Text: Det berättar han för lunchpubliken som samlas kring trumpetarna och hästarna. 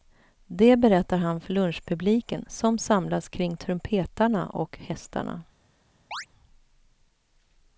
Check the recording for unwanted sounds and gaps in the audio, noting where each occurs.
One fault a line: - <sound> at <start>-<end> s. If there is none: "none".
- chirp at 6.1-6.3 s